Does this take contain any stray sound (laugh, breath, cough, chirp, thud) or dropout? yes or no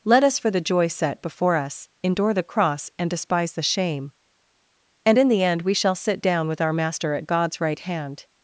no